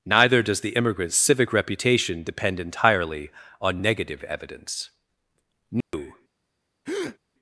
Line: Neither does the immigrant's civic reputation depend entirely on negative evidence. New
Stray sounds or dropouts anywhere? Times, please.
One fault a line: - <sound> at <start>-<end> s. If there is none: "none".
- dropout at 5.8-5.9 s
- breath at 6.9-7.2 s